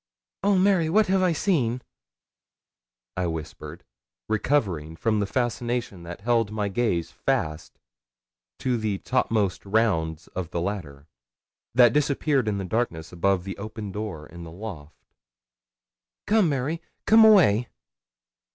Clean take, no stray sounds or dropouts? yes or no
yes